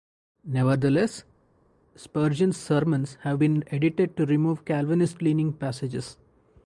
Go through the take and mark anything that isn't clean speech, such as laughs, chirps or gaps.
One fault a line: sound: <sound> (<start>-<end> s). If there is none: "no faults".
no faults